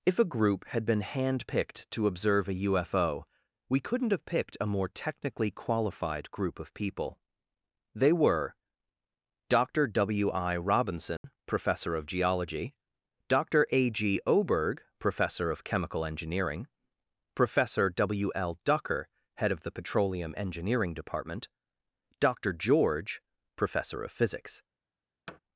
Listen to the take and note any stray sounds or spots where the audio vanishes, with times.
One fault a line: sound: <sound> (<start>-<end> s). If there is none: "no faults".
sound: dropout (11.2-11.2 s)
sound: thud (25.3-25.4 s)